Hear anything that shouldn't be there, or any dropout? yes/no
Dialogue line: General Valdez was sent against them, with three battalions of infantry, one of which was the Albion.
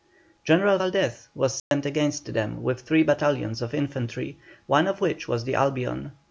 yes